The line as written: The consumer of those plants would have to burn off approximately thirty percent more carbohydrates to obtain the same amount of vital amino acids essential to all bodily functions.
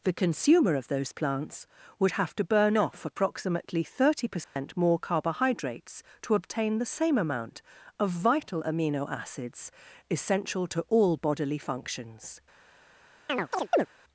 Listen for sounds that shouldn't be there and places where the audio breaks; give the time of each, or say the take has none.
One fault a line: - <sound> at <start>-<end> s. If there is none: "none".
- dropout at 4.4-4.6 s
- chirp at 13.3-13.9 s